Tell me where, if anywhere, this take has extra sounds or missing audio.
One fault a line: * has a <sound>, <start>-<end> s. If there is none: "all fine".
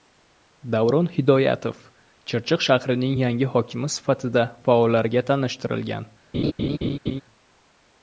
* has a laugh, 6.3-7.2 s